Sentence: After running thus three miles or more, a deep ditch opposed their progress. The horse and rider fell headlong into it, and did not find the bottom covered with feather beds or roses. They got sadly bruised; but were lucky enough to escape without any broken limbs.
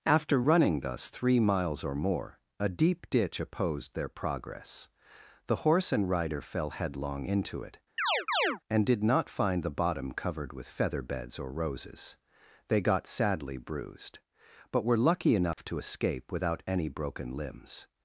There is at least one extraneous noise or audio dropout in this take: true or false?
true